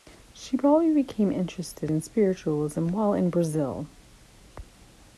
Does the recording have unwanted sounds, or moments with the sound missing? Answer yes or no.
no